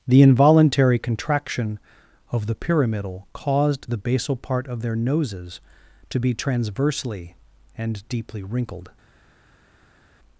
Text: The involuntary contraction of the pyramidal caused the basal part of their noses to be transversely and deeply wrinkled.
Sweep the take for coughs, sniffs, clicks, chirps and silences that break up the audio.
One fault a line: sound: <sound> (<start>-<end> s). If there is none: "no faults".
no faults